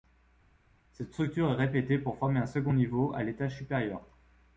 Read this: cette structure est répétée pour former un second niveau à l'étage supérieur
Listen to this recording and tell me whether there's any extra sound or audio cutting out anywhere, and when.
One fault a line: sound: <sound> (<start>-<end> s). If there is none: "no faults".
no faults